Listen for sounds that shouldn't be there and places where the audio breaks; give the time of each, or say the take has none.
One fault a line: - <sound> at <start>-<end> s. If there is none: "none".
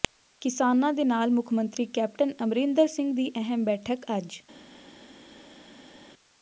none